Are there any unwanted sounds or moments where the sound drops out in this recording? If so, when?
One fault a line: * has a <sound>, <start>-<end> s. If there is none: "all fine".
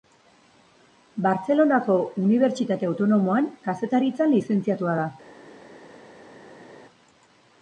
all fine